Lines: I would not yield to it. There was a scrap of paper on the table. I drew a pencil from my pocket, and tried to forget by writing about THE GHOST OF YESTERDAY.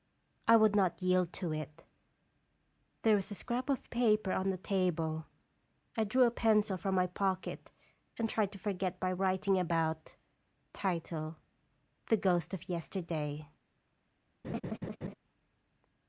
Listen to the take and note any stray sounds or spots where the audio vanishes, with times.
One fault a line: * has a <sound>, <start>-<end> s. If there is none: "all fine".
* has a laugh, 14.4-15.2 s